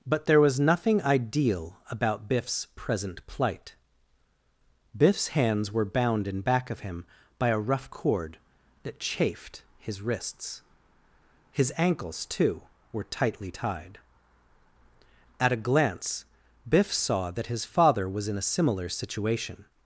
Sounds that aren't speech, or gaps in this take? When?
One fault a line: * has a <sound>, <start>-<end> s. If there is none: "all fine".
all fine